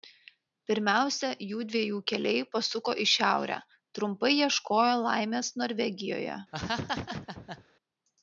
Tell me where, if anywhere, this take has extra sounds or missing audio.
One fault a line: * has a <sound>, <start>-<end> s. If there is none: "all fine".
* has a laugh, 6.5-7.6 s